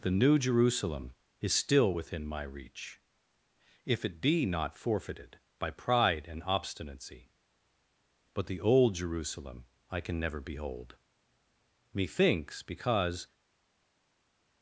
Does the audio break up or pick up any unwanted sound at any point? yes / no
no